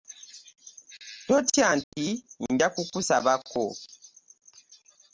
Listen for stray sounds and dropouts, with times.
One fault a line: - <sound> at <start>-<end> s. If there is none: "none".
- dropout at 1.8-1.9 s